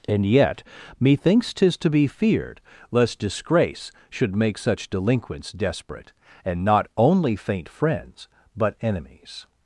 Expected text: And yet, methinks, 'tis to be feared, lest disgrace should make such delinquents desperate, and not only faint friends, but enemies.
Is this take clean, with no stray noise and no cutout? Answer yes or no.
yes